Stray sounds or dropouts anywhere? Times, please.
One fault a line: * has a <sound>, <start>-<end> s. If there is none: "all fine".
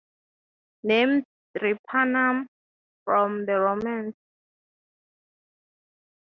all fine